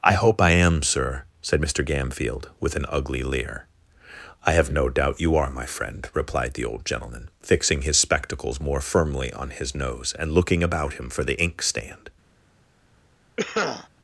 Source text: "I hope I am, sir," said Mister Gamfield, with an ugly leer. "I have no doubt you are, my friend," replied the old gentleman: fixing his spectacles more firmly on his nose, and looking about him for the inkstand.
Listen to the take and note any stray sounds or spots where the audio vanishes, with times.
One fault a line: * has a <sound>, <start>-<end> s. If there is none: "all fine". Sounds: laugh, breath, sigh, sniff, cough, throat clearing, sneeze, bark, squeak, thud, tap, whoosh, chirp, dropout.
* has a cough, 13.4-13.9 s